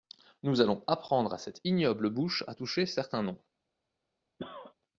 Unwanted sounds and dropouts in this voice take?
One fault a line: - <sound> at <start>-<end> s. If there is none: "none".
- cough at 4.4-4.7 s